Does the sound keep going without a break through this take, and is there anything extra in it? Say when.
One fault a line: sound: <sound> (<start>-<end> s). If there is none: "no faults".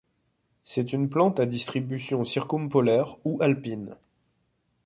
no faults